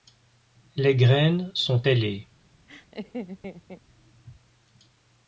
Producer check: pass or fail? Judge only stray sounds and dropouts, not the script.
fail